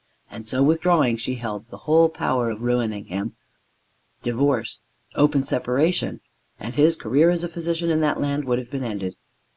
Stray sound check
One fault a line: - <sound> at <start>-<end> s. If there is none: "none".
none